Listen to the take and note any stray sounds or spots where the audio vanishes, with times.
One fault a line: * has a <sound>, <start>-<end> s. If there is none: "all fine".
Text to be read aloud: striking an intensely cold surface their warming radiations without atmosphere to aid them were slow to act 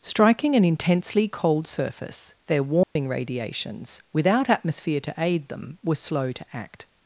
* has a dropout, 2.8-3.0 s